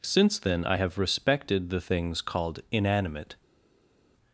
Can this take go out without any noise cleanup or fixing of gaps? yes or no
yes